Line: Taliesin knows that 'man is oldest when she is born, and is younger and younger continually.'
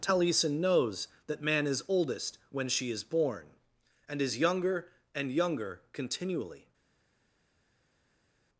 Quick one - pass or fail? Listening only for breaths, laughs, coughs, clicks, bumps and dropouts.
pass